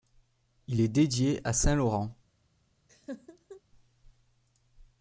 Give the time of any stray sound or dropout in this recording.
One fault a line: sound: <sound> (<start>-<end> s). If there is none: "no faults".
sound: laugh (2.9-3.6 s)